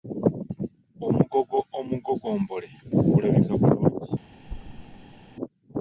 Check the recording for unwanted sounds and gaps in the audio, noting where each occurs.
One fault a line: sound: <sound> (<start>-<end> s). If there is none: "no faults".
sound: thud (4.4-5.3 s)